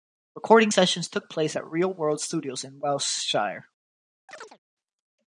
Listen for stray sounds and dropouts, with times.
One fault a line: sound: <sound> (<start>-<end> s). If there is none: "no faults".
sound: chirp (4.3-4.6 s)